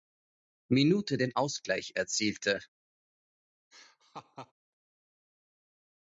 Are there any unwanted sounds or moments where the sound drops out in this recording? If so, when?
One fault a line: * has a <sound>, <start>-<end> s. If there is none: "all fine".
* has a laugh, 3.7-4.5 s